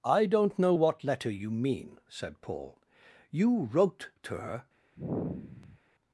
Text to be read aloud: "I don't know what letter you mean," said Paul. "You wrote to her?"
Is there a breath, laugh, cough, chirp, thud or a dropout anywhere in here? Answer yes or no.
yes